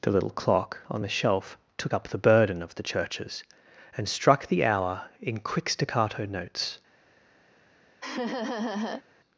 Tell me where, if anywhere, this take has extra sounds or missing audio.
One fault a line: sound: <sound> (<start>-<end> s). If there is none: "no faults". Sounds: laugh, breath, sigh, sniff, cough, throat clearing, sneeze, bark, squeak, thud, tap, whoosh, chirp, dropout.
sound: laugh (8.0-9.0 s)